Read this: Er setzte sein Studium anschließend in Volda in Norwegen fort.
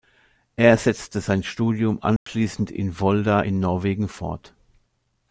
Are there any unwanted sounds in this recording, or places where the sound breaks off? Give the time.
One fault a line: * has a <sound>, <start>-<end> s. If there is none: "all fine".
* has a dropout, 2.2-2.3 s